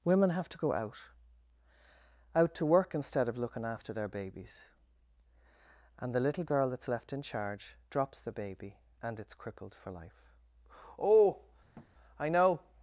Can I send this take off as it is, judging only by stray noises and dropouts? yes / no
no